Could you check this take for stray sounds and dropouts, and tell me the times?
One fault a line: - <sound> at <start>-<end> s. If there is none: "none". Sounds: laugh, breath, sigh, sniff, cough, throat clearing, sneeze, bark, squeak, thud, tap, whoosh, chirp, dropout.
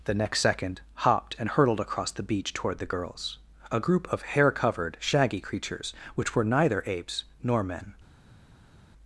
none